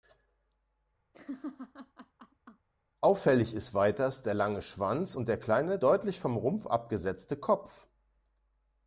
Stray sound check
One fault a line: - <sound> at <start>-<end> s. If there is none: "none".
- laugh at 1.1-2.7 s